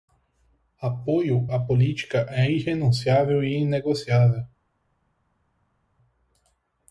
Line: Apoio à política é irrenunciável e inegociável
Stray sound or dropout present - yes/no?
no